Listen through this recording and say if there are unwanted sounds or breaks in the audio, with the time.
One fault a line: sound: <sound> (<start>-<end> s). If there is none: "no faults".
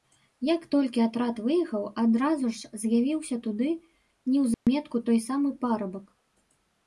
sound: dropout (4.5-4.7 s)